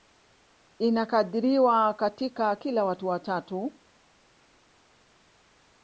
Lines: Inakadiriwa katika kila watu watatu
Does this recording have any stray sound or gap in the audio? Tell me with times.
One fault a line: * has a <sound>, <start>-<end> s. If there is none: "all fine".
all fine